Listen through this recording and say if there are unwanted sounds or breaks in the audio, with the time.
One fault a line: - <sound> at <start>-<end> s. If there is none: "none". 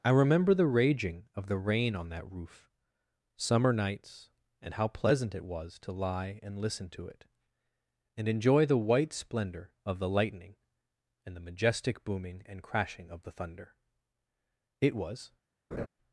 - laugh at 15.7-15.9 s